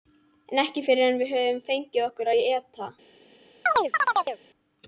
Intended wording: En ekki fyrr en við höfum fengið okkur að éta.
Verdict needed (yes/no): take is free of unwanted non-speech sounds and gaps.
no